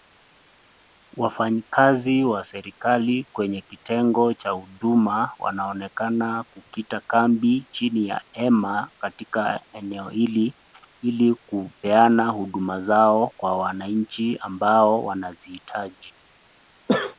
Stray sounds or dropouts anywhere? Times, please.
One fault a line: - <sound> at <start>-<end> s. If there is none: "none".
- sneeze at 16.9-17.2 s